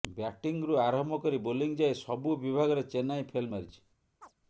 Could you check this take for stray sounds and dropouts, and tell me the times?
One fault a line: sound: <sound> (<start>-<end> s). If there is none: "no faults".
sound: chirp (4.2-4.3 s)